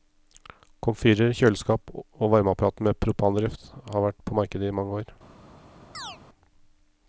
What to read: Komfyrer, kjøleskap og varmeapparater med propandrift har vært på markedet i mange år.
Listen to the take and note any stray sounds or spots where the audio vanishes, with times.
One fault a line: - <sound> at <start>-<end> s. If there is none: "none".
- chirp at 5.9-6.2 s